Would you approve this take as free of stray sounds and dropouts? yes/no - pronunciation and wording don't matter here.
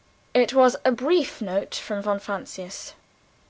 yes